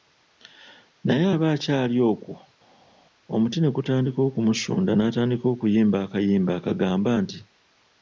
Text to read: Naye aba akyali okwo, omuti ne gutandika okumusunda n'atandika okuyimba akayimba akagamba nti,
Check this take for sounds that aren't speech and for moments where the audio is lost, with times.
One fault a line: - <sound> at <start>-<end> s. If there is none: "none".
none